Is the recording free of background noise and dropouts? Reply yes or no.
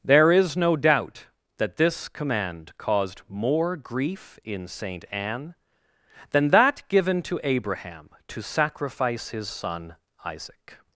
yes